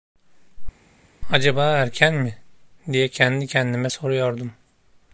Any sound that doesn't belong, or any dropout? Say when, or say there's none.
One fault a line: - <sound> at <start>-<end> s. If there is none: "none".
none